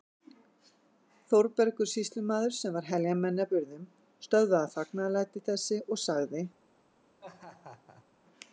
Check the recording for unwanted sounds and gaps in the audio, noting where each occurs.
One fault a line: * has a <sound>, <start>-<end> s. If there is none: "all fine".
* has a laugh, 7.2-8.1 s